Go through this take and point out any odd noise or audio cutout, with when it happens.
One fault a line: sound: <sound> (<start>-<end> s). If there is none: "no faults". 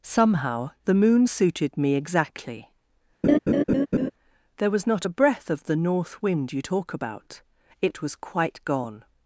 sound: laugh (3.2-4.1 s)